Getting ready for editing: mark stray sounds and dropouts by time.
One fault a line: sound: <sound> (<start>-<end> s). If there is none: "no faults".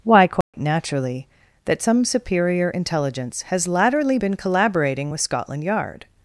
sound: dropout (0.4-0.5 s)